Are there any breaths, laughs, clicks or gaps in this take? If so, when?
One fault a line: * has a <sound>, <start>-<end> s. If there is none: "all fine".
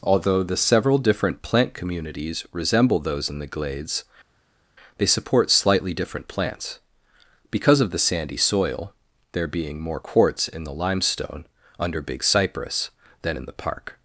all fine